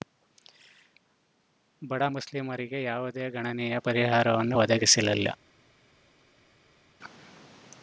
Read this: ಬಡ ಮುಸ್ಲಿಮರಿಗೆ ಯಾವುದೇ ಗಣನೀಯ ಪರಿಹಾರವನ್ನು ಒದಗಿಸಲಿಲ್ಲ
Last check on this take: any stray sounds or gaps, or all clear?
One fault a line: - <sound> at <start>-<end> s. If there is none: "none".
none